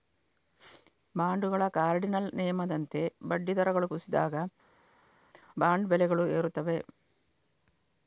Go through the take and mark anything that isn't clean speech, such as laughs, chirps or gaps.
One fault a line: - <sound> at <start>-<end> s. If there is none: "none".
none